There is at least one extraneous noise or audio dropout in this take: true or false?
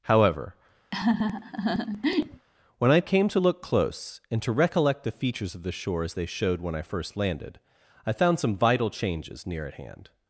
true